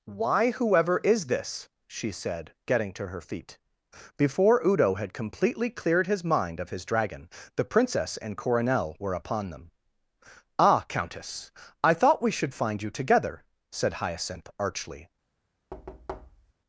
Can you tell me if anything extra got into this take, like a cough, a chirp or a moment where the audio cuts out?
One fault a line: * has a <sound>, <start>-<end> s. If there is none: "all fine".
* has a thud, 15.7-16.5 s